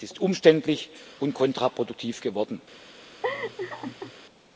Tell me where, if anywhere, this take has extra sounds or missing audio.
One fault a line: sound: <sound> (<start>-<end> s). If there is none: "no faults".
sound: laugh (3.2-4.1 s)